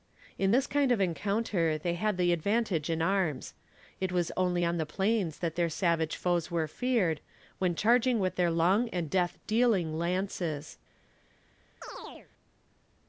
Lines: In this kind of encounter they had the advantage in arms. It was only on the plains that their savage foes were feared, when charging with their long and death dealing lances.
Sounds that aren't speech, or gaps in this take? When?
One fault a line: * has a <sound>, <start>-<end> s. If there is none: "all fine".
* has a chirp, 11.8-12.3 s